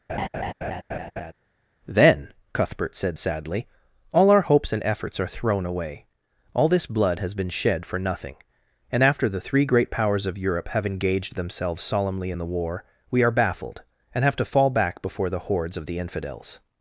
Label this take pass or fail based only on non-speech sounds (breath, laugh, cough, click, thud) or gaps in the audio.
fail